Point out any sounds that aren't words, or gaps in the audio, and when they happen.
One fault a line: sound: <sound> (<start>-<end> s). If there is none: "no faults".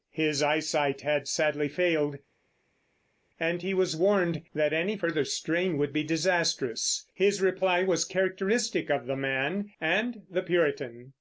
no faults